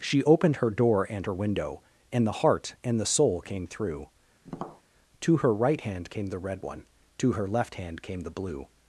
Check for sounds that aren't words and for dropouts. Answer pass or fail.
fail